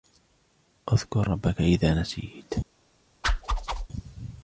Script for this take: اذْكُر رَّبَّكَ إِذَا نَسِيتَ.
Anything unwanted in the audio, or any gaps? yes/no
yes